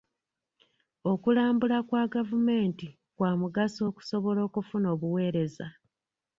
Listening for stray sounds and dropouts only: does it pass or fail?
pass